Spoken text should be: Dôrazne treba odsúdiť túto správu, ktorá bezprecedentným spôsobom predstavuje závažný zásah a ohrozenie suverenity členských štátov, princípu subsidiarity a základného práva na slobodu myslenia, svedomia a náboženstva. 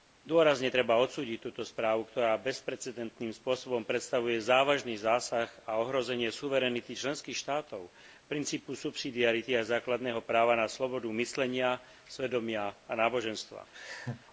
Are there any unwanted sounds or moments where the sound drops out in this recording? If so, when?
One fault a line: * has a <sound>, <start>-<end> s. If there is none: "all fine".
* has a laugh, 13.7-14.2 s